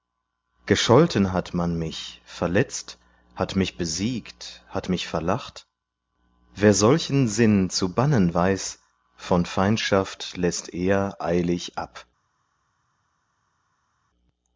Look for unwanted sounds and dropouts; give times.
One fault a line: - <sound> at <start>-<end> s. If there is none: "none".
none